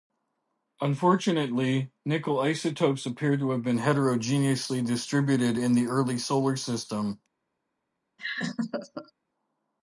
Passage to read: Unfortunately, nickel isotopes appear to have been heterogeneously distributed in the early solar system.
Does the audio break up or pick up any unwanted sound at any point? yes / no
yes